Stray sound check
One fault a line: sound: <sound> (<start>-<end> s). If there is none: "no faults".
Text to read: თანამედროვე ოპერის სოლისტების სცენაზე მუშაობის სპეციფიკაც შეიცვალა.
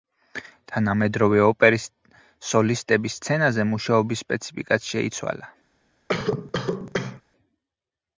sound: cough (6.1-7.2 s)